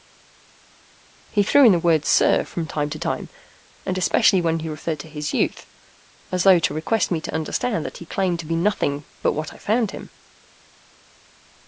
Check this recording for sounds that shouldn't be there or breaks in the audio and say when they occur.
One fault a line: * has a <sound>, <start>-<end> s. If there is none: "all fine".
all fine